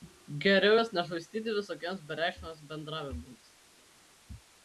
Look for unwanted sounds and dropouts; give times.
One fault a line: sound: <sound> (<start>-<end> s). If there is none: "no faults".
no faults